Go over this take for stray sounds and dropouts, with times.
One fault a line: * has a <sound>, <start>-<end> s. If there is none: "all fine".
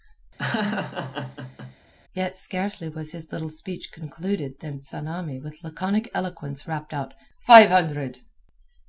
* has a laugh, 0.4-1.8 s